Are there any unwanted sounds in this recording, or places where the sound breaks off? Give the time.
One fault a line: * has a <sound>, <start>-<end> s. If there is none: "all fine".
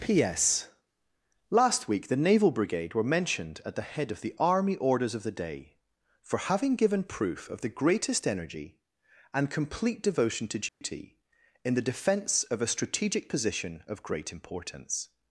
* has a dropout, 10.7-10.8 s